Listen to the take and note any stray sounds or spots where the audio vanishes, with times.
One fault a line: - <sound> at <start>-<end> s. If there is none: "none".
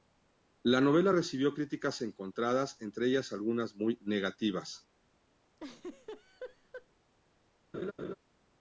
- laugh at 5.6-6.9 s
- laugh at 7.7-8.1 s